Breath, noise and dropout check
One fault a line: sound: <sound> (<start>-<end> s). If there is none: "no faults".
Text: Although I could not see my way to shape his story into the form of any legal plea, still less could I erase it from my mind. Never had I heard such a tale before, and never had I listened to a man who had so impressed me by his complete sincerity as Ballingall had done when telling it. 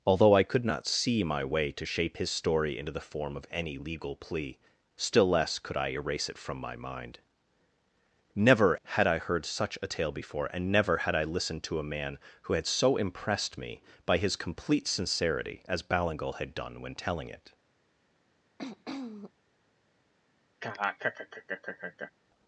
sound: throat clearing (18.6-19.3 s)
sound: laugh (20.6-22.1 s)